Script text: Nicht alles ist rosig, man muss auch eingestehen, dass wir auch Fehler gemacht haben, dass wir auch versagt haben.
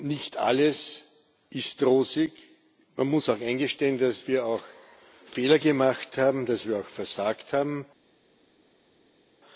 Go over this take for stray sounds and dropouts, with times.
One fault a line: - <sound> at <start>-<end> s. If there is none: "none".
none